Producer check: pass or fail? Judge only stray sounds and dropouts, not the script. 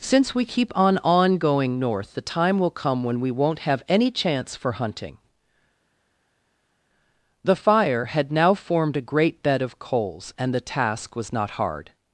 pass